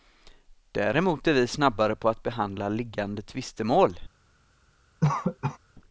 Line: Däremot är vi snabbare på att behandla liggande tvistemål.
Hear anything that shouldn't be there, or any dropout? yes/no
yes